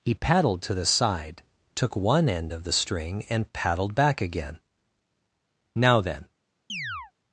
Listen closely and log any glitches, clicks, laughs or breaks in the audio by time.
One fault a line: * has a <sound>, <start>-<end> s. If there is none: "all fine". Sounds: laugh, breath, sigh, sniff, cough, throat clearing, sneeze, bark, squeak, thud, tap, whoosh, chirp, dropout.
* has a chirp, 6.7-7.1 s